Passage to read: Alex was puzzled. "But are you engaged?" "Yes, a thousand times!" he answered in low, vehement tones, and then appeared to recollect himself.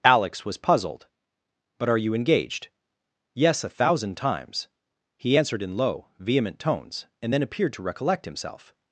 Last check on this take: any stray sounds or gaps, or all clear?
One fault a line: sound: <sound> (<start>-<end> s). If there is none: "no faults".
no faults